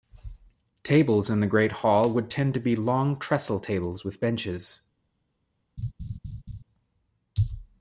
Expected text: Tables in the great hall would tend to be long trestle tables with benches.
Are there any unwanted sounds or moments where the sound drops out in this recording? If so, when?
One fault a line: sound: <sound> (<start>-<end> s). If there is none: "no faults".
sound: laugh (5.8-6.6 s)